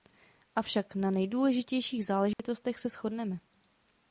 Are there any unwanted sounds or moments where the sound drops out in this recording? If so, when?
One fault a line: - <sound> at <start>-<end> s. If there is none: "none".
- dropout at 2.3-2.4 s